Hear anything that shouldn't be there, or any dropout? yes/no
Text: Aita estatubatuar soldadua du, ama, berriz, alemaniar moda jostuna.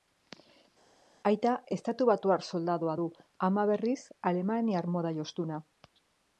no